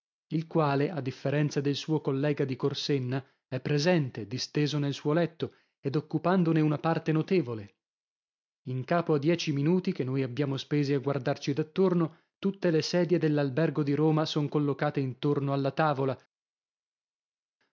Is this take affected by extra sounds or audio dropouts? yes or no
no